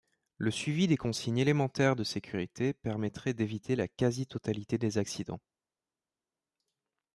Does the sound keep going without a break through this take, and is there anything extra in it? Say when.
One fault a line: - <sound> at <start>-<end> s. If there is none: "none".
none